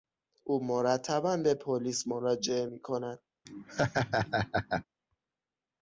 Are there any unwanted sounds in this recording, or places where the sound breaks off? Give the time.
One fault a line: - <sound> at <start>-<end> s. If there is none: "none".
- laugh at 3.5-4.9 s